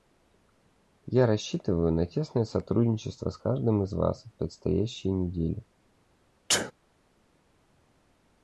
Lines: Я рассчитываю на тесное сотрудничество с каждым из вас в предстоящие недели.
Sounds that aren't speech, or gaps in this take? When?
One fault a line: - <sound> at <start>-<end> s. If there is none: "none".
- sneeze at 6.5-6.7 s